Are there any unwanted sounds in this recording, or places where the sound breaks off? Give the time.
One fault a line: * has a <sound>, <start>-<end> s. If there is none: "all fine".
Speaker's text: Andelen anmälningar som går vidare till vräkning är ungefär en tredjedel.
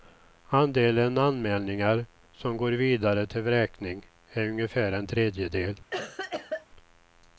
* has a cough, 5.9-6.7 s